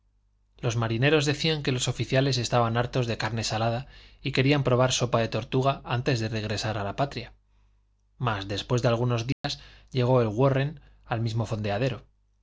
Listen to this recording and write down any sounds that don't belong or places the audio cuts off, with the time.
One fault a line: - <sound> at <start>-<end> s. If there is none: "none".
- dropout at 9.3-9.4 s